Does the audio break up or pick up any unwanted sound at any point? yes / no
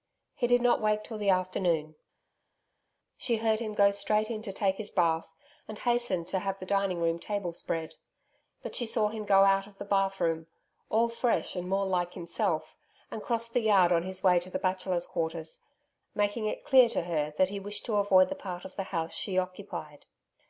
no